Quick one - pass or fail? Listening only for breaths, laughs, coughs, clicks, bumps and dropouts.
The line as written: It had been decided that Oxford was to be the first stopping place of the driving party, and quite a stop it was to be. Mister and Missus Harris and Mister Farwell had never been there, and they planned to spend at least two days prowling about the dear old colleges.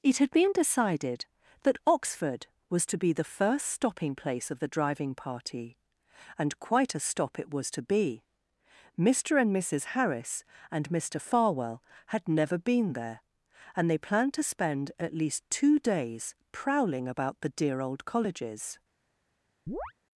fail